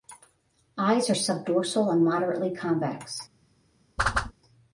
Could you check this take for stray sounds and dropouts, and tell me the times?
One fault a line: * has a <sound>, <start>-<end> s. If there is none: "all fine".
* has a whoosh, 4.0-4.3 s